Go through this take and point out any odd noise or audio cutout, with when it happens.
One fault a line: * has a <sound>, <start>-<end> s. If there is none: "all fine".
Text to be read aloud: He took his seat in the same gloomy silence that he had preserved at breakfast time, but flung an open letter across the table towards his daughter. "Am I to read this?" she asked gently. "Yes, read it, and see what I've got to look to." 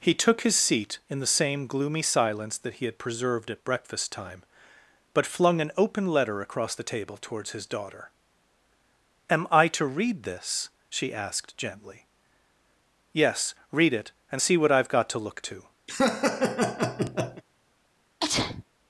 * has a laugh, 15.9-17.4 s
* has a sneeze, 18.2-18.6 s